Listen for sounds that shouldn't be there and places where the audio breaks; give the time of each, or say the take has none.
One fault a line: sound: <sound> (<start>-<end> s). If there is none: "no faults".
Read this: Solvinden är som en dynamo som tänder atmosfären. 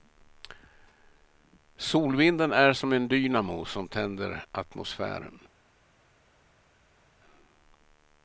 no faults